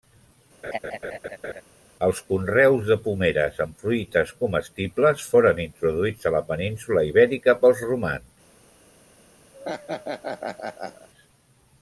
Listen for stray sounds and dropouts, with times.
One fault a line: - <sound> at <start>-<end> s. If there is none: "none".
- laugh at 0.6-1.6 s
- laugh at 9.5-11.1 s